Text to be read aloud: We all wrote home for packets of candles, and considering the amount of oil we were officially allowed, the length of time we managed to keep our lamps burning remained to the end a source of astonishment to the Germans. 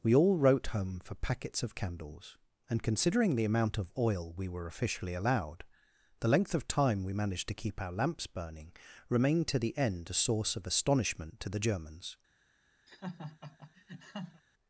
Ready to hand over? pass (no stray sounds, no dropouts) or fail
fail